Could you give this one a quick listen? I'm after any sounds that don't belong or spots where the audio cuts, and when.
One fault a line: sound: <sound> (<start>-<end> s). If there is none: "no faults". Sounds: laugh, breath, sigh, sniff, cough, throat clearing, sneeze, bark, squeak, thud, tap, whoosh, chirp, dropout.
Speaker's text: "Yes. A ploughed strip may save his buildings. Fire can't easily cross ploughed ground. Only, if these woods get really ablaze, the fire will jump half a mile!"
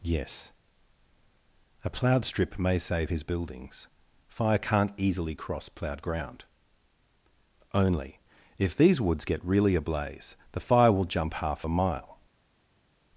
no faults